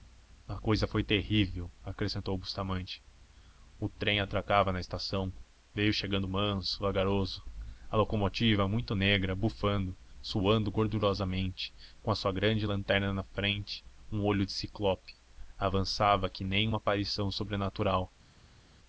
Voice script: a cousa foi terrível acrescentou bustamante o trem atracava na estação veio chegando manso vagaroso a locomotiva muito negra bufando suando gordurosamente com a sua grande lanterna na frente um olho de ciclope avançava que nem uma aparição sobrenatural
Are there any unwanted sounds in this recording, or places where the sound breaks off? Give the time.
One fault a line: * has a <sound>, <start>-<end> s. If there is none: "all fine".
all fine